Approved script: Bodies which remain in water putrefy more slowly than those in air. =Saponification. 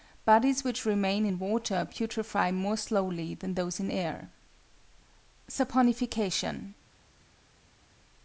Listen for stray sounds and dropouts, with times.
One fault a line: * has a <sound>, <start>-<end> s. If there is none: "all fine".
all fine